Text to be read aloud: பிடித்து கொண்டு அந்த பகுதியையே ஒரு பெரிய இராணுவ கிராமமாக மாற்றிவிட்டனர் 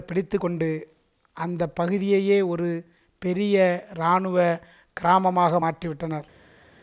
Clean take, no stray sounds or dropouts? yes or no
yes